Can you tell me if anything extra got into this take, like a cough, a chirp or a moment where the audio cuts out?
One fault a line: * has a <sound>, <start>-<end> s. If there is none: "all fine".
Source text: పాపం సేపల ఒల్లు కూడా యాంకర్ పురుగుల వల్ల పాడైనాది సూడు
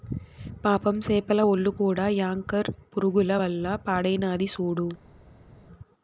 all fine